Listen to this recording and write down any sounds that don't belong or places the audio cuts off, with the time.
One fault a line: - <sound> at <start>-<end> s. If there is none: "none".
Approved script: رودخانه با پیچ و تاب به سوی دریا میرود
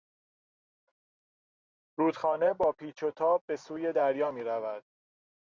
none